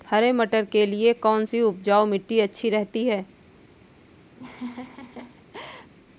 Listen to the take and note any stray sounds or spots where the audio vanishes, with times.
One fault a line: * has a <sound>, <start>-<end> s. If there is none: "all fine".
* has a laugh, 4.4-5.9 s